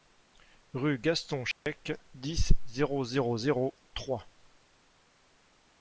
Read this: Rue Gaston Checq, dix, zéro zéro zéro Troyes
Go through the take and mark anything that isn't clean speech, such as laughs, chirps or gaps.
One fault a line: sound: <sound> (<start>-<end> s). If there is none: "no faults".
sound: dropout (1.5-1.7 s)